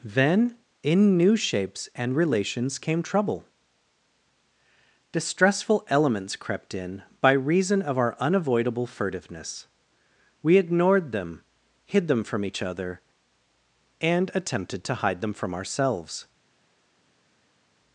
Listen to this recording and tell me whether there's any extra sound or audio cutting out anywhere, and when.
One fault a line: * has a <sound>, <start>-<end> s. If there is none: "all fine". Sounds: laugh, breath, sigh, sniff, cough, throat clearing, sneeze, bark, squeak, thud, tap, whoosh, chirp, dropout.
all fine